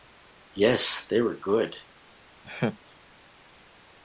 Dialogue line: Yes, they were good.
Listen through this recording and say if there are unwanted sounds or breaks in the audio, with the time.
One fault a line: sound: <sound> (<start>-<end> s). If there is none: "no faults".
sound: laugh (2.4-2.8 s)